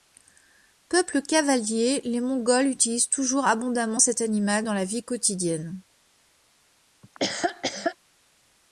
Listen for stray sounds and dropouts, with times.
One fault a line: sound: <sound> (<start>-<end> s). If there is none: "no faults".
sound: laugh (7.0-8.0 s)